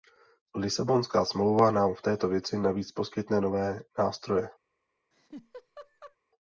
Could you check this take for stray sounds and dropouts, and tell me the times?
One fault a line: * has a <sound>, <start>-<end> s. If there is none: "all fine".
* has a laugh, 5.1-6.2 s